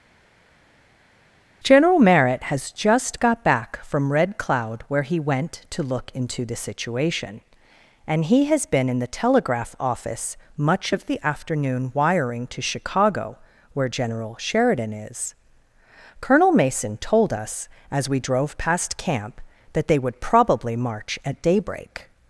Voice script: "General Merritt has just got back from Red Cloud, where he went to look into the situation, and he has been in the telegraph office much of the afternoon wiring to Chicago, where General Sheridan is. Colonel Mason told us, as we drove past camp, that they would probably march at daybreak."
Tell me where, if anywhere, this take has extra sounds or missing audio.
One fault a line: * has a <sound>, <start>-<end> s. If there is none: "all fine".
all fine